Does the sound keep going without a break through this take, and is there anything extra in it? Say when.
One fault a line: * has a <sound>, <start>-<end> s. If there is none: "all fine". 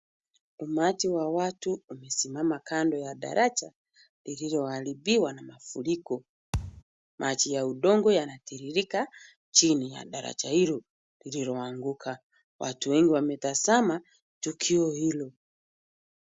* has a thud, 6.5-6.8 s